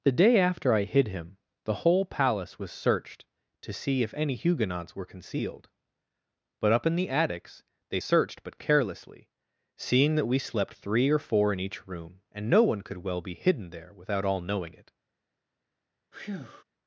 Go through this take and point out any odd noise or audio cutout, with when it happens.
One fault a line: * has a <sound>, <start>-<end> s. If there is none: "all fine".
* has a breath, 16.1-16.6 s